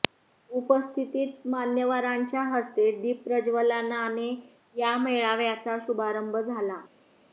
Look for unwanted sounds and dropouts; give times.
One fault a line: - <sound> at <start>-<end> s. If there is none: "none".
none